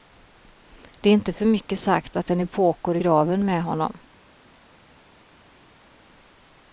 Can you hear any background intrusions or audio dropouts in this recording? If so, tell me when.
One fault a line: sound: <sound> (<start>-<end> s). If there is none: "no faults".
no faults